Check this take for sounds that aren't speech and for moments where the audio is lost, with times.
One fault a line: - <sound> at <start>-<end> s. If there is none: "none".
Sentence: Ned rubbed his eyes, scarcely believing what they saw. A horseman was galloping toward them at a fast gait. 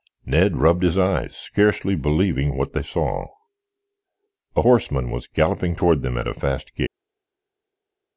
none